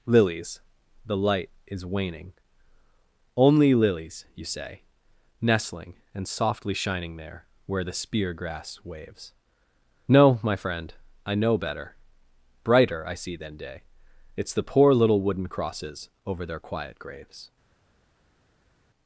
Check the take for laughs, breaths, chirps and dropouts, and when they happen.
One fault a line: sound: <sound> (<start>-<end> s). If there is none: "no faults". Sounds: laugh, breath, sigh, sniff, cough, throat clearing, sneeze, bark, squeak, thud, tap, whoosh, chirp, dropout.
no faults